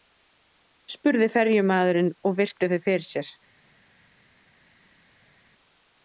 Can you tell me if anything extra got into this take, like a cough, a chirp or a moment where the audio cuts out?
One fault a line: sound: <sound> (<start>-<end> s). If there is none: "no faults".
no faults